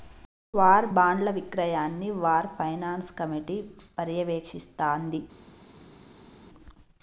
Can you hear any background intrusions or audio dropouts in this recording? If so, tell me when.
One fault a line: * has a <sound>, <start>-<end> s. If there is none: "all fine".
all fine